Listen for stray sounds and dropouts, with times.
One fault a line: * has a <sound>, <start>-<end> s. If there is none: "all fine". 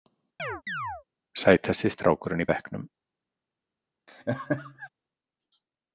* has a chirp, 0.4-1.0 s
* has a laugh, 4.1-4.9 s